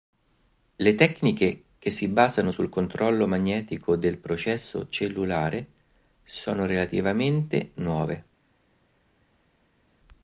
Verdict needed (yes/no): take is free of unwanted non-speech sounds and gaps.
yes